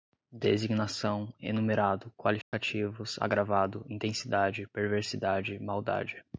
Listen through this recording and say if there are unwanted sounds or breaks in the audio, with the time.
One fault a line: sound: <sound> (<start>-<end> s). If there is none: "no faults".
sound: dropout (2.4-2.5 s)